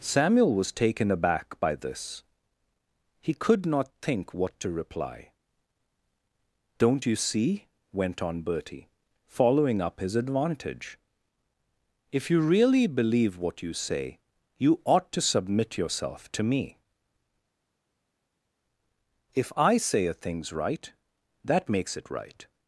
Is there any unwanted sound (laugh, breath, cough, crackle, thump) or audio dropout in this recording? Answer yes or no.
no